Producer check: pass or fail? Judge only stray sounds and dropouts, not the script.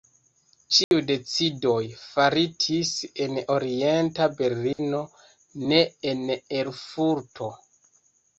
fail